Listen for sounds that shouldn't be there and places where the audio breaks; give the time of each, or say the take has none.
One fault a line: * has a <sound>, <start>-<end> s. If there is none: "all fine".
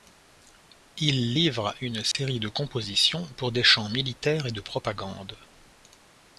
* has a dropout, 2.1-2.1 s